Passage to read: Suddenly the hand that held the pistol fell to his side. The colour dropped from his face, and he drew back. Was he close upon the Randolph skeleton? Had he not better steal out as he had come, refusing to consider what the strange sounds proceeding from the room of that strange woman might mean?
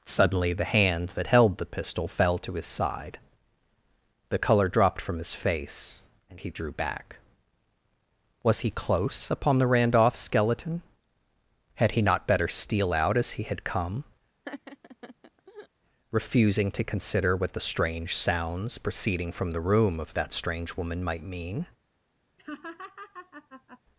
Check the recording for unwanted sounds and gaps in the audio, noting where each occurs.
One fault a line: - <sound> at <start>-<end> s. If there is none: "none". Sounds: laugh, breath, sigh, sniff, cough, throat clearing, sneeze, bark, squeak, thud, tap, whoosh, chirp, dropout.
- laugh at 14.4-15.7 s
- laugh at 22.4-23.8 s